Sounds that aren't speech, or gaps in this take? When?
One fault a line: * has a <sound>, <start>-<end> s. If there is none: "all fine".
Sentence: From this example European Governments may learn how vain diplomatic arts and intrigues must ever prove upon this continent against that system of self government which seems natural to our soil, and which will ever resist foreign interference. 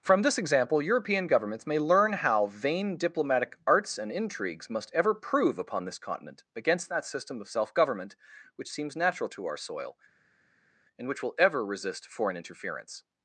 all fine